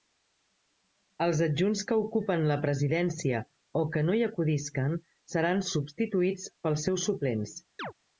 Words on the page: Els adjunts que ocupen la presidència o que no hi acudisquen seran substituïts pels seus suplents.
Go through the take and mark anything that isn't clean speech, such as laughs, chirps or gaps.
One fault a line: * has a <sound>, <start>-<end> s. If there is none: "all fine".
* has a chirp, 7.8-7.9 s